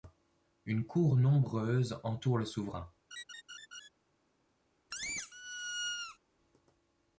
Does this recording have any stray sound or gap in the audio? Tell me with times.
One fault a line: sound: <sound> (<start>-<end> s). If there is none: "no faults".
sound: laugh (3.1-3.9 s)
sound: squeak (4.9-6.2 s)